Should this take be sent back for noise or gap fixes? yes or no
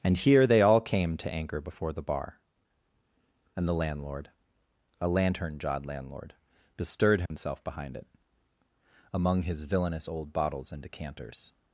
yes